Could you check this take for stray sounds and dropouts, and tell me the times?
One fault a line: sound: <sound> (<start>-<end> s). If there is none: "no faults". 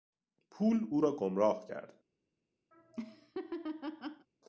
sound: laugh (2.7-4.3 s)